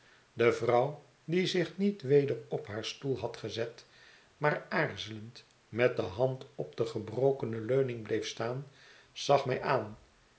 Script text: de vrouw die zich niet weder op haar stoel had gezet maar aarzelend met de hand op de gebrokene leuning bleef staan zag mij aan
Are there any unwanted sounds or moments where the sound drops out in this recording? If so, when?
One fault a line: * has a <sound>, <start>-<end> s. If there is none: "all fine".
all fine